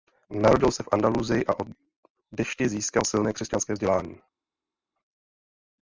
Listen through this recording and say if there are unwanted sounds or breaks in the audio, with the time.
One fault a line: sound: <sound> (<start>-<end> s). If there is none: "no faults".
no faults